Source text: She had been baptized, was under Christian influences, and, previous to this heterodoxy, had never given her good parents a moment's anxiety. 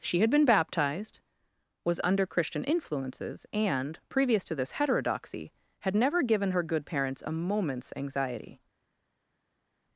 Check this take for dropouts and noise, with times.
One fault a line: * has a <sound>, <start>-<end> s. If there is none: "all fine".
all fine